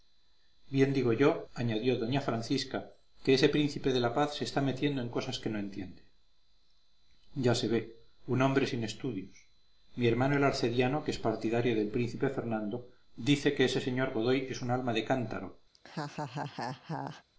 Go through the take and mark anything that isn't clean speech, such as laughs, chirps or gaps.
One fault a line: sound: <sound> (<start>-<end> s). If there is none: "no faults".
sound: laugh (15.7-17.2 s)